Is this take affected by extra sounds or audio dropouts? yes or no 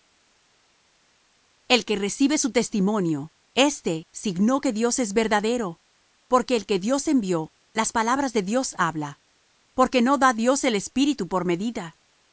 no